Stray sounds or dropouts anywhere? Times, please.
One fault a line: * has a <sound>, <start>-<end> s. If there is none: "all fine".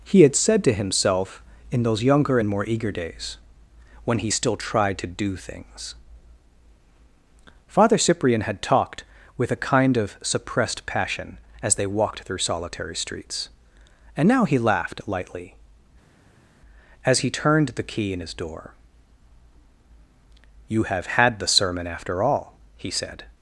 all fine